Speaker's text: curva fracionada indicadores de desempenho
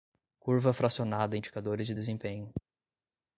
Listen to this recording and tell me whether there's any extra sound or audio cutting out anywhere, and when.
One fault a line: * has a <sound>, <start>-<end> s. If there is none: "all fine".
all fine